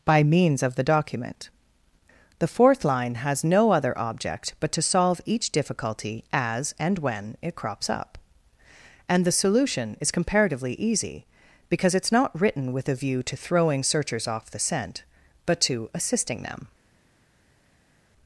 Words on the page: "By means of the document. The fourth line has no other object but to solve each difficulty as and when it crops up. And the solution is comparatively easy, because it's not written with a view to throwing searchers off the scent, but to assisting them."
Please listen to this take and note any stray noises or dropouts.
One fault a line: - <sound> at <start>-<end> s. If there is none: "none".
none